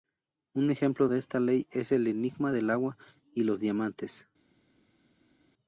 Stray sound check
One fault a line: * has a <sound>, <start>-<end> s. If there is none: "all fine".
all fine